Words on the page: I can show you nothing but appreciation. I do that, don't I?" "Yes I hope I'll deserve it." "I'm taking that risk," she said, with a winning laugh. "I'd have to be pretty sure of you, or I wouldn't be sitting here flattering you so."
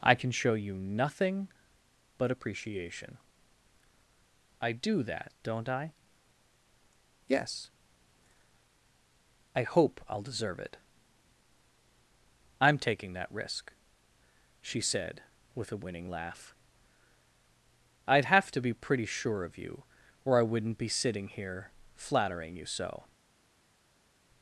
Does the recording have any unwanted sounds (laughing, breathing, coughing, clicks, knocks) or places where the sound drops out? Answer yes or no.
no